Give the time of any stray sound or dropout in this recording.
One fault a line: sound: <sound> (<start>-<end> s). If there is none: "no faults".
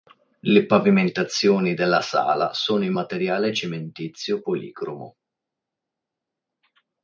no faults